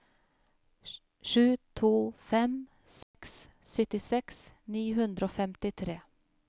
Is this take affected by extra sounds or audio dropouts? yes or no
yes